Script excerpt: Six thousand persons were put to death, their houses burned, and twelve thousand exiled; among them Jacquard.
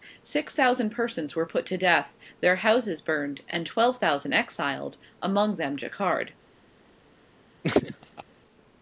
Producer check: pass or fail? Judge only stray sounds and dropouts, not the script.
fail